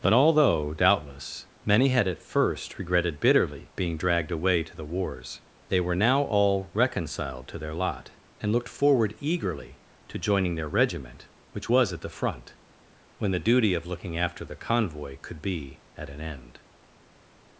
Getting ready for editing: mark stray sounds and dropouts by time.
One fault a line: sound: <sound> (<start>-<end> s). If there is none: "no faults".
no faults